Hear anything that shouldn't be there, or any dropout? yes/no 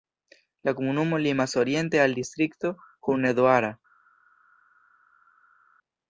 no